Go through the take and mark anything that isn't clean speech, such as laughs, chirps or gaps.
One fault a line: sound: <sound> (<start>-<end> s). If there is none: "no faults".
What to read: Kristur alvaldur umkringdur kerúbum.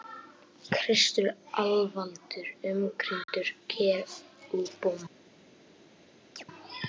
sound: dropout (3.2-3.3 s)
sound: chirp (6.4-6.4 s)